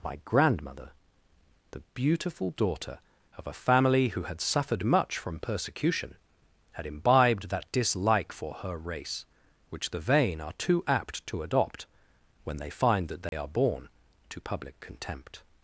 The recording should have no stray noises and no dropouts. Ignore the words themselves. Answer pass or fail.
fail